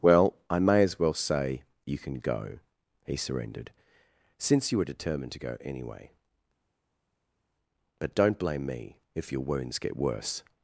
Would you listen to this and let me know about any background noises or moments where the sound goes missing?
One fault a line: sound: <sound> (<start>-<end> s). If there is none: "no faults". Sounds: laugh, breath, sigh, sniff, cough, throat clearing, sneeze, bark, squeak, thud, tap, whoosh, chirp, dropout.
no faults